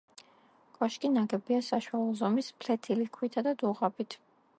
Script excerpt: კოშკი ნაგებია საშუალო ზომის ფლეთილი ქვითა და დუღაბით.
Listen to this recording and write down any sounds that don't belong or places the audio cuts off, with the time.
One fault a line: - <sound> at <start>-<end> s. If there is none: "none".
none